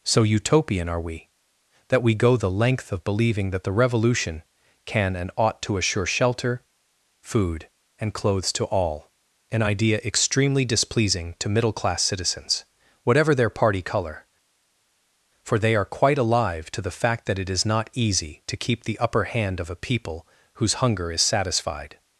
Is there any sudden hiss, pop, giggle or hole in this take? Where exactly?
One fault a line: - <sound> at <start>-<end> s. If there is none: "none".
none